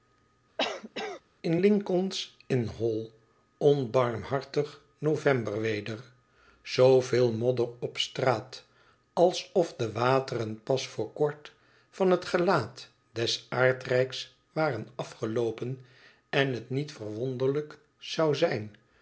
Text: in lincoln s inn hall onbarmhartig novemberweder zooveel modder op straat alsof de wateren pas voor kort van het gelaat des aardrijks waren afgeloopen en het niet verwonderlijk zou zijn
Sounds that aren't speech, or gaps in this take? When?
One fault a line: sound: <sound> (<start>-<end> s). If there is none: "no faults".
sound: cough (0.6-1.2 s)